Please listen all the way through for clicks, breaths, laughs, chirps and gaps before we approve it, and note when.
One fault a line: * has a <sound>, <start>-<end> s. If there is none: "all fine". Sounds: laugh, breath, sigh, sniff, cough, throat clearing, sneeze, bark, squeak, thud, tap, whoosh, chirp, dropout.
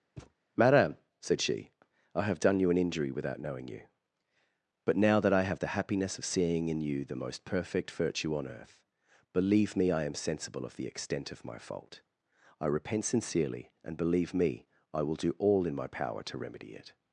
* has a thud, 0.2-0.3 s